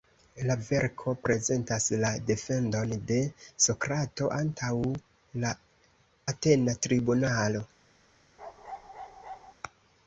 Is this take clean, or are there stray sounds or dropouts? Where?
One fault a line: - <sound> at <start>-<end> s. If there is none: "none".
- bark at 8.4-9.5 s